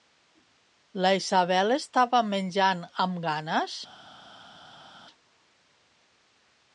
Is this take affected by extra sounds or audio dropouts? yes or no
no